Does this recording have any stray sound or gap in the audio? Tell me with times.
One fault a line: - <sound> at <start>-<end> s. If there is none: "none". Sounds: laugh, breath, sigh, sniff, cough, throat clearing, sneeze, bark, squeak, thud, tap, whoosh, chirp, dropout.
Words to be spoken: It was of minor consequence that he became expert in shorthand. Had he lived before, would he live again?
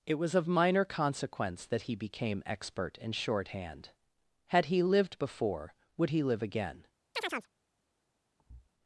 - chirp at 7.2-7.5 s
- thud at 8.4-8.7 s